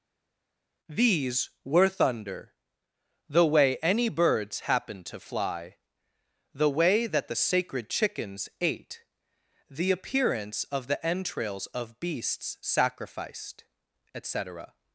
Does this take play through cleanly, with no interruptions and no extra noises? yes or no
yes